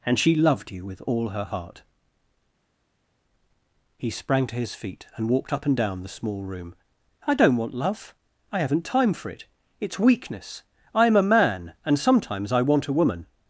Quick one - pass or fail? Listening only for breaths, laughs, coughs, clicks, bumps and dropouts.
pass